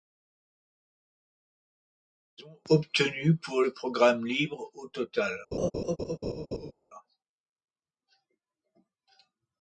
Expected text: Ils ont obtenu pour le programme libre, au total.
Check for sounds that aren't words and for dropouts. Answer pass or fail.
fail